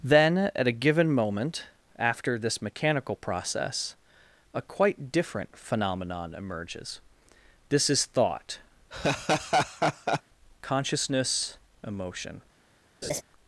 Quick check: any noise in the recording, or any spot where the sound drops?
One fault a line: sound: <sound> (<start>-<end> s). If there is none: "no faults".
sound: laugh (8.9-10.2 s)
sound: laugh (13.0-13.2 s)